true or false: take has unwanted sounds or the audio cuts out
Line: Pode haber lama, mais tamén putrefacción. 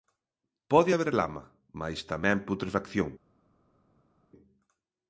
false